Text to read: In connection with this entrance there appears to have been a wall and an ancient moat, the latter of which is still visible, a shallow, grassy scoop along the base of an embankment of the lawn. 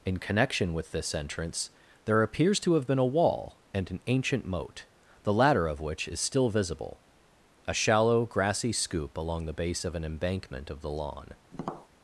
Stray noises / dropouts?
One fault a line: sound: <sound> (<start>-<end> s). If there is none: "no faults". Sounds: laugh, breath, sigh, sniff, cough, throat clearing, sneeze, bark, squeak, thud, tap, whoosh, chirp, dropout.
sound: tap (11.5-11.9 s)